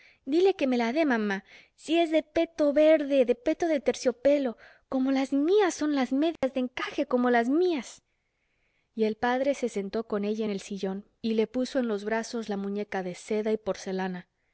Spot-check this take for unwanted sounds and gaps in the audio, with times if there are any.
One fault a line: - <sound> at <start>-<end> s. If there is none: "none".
- dropout at 6.4-6.4 s